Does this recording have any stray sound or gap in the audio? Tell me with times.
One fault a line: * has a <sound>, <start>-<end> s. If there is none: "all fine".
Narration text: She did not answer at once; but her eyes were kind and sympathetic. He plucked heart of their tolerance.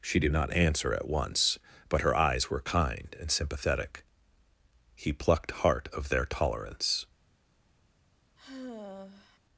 * has a sigh, 8.4-9.4 s